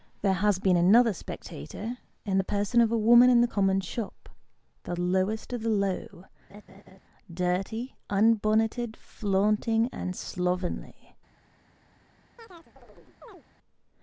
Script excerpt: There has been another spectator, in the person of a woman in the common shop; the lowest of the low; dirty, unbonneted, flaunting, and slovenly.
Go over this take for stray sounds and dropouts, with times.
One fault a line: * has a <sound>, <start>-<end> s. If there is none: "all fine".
* has a laugh, 6.5-7.0 s
* has a chirp, 12.4-13.4 s